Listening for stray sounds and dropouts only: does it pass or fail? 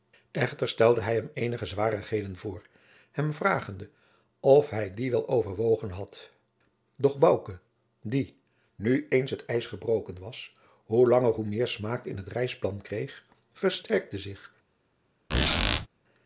fail